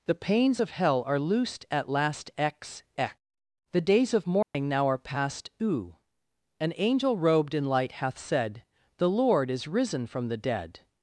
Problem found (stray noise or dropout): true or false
true